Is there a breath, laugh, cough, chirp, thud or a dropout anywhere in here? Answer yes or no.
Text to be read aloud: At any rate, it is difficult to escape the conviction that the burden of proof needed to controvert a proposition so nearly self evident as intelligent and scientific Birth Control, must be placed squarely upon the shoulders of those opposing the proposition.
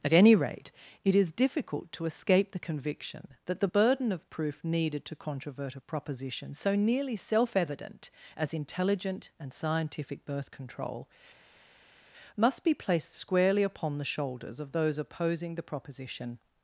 no